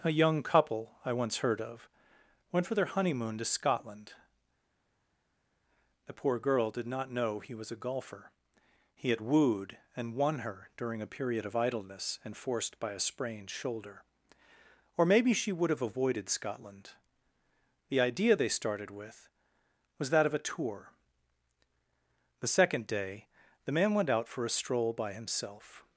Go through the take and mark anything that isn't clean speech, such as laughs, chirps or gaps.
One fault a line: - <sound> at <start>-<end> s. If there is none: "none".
none